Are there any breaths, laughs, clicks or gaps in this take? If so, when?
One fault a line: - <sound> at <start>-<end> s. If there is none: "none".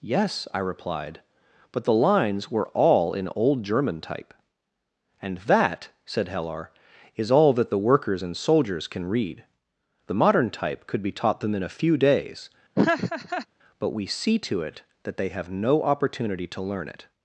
- laugh at 12.7-13.5 s